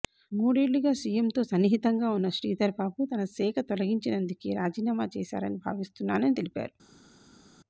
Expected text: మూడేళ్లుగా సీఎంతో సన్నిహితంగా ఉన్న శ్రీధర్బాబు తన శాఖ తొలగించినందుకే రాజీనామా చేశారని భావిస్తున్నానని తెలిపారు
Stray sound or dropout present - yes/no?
no